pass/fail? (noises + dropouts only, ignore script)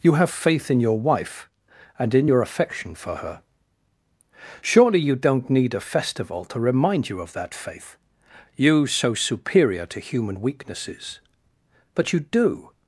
pass